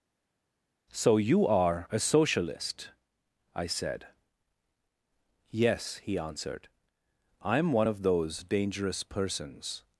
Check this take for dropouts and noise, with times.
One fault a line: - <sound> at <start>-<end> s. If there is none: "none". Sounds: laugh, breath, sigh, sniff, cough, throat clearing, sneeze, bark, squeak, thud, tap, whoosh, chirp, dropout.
none